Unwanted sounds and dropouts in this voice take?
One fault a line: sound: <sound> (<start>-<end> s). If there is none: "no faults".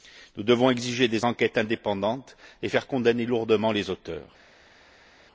no faults